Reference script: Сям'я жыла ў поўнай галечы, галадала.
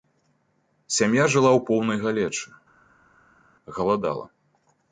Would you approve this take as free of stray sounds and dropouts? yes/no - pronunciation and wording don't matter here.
yes